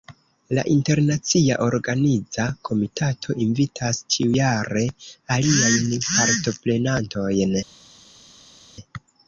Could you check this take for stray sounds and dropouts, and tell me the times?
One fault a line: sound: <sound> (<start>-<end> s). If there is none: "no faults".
no faults